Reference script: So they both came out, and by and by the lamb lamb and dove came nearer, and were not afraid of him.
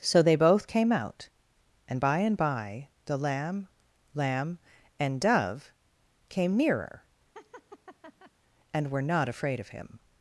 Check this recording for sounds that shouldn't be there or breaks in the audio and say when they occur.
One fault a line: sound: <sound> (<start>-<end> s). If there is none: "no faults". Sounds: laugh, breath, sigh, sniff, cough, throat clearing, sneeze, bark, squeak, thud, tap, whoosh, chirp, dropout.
sound: laugh (7.3-8.3 s)